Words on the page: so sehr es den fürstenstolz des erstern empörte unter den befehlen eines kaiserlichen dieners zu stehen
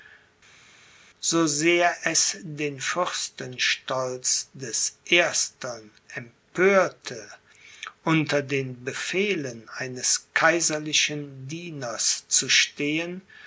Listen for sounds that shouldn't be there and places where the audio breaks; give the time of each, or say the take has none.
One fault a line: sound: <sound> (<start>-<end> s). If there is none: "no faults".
no faults